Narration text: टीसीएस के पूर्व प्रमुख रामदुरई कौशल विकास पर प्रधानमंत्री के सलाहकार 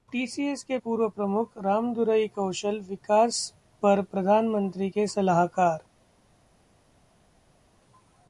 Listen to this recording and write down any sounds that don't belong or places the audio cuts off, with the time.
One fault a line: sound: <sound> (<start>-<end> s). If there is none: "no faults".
no faults